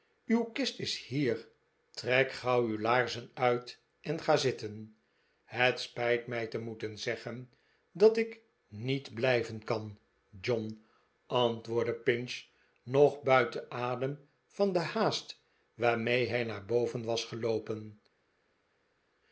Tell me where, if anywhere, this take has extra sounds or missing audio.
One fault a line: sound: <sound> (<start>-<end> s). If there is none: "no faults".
no faults